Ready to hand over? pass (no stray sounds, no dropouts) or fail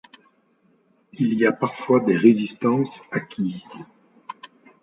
pass